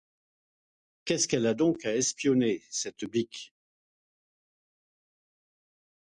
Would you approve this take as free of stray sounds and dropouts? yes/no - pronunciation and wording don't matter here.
yes